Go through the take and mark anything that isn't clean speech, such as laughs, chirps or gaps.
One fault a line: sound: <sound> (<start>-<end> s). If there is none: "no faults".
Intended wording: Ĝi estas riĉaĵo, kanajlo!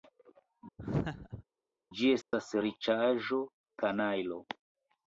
sound: laugh (0.8-1.4 s)
sound: dropout (2.2-2.3 s)